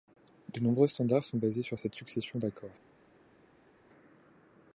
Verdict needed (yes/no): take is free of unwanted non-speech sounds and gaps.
yes